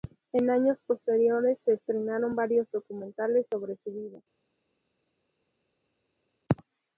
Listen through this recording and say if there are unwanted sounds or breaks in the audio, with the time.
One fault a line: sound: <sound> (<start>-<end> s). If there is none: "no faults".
no faults